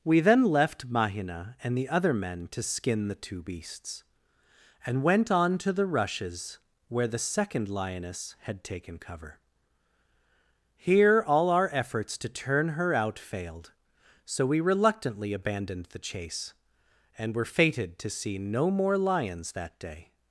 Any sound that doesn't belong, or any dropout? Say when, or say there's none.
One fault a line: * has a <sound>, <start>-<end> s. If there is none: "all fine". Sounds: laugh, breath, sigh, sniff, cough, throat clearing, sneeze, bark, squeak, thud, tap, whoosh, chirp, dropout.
all fine